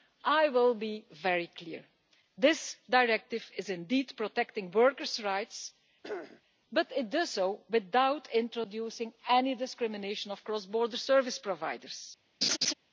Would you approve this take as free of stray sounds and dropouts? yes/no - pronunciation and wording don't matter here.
no